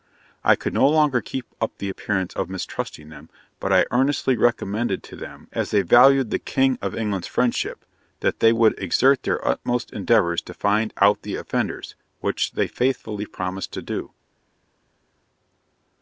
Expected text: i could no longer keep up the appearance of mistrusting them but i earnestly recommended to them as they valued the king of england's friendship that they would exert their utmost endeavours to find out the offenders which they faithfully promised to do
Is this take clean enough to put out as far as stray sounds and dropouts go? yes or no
yes